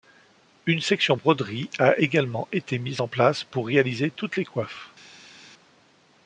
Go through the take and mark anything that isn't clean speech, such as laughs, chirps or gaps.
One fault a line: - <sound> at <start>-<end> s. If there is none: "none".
none